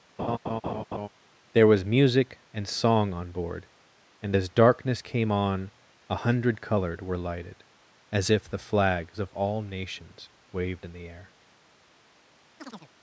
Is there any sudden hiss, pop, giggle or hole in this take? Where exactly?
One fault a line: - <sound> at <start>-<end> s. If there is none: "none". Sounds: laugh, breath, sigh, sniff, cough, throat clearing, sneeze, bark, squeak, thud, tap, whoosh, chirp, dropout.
- laugh at 0.2-1.1 s
- chirp at 12.6-12.9 s